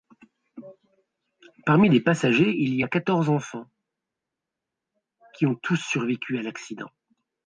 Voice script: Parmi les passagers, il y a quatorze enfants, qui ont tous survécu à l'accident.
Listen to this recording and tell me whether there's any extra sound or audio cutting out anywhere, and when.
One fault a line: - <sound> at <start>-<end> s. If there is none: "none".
none